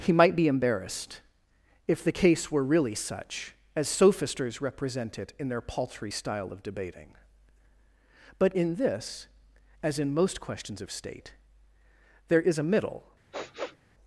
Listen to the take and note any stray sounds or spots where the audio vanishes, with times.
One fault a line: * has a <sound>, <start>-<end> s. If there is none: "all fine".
* has a sniff, 13.3-13.8 s